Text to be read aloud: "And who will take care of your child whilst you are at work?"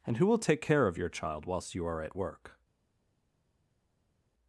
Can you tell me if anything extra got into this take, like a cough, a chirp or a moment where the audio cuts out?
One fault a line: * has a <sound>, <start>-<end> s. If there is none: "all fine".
all fine